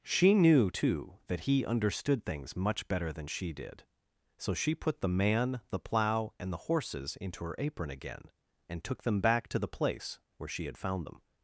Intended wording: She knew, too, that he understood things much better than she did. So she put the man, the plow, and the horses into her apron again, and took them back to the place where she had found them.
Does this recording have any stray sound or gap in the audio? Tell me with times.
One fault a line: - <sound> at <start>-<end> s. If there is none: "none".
none